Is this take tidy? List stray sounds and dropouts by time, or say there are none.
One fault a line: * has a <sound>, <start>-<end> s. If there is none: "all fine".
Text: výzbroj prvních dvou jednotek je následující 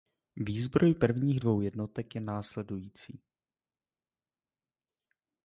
all fine